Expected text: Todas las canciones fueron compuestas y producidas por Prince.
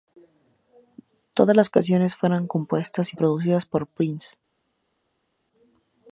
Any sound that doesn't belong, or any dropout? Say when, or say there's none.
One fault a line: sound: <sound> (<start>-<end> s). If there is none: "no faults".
no faults